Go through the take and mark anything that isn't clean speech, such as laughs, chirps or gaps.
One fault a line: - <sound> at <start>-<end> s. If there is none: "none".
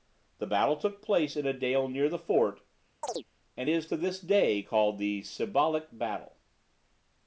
- chirp at 3.0-3.3 s